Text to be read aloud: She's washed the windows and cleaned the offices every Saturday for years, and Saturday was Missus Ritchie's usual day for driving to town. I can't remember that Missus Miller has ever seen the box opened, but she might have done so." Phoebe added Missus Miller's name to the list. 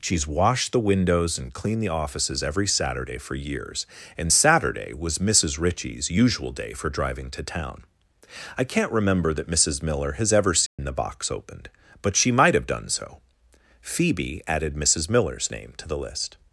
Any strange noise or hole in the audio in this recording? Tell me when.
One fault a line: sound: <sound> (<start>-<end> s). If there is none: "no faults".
sound: dropout (10.7-10.8 s)